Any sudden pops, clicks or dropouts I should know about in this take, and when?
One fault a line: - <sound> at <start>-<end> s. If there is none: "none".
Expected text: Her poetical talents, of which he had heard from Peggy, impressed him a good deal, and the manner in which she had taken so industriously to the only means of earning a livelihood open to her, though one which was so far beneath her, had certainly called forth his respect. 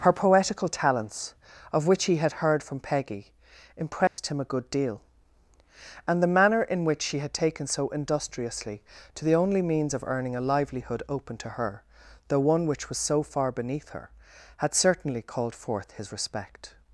- dropout at 4.1-4.2 s